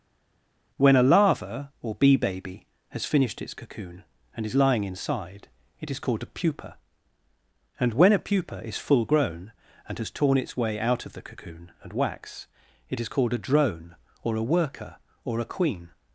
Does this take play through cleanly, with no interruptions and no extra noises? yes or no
yes